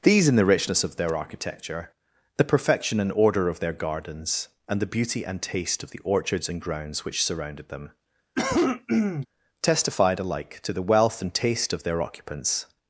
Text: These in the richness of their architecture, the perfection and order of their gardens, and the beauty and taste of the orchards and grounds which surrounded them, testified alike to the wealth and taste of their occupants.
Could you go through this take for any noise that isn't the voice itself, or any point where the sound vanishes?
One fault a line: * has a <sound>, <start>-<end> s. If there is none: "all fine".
* has a cough, 8.4-9.3 s